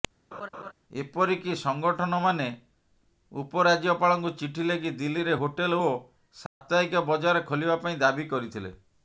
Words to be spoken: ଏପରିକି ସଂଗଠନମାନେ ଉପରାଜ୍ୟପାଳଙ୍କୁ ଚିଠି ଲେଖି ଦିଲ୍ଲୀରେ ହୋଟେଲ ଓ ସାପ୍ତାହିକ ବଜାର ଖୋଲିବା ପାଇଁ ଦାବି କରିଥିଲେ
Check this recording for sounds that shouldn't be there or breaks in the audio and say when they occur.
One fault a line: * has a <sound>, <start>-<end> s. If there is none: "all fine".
* has a laugh, 0.3-0.7 s
* has a dropout, 6.5-6.6 s